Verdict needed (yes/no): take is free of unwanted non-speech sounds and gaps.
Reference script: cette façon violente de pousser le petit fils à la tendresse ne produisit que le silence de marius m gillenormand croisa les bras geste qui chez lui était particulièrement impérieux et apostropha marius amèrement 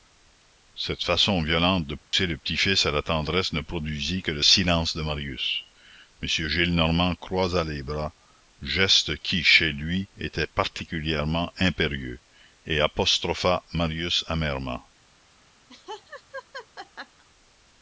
no